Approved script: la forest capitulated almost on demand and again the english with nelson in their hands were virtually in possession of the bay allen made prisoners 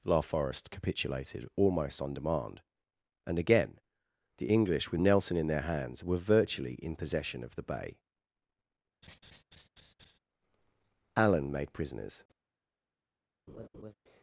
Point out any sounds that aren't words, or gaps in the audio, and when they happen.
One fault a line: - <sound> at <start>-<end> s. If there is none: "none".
- laugh at 9.0-10.2 s
- laugh at 13.5-13.9 s